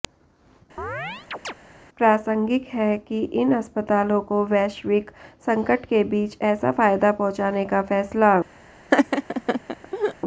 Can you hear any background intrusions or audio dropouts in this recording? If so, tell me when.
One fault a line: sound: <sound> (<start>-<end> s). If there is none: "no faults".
sound: chirp (0.8-1.5 s)
sound: laugh (8.9-10.1 s)